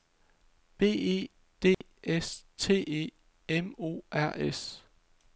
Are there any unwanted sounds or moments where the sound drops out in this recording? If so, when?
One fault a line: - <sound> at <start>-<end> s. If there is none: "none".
- dropout at 1.7-1.8 s